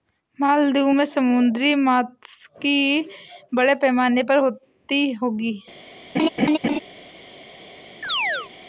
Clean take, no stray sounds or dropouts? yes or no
no